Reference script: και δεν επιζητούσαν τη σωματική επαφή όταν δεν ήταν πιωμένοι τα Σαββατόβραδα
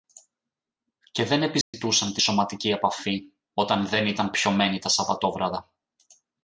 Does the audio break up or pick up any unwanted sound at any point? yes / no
yes